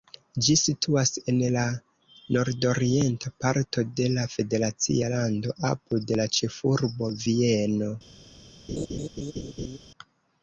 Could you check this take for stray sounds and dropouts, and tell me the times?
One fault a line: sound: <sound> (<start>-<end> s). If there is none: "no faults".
sound: laugh (8.7-9.8 s)